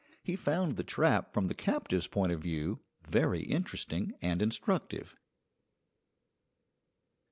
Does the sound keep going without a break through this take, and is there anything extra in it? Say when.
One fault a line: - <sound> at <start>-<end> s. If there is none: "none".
none